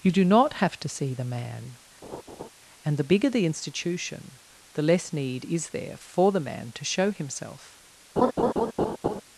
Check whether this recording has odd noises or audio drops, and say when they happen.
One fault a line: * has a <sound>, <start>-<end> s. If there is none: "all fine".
* has a laugh, 2.0-2.5 s
* has a laugh, 8.2-9.2 s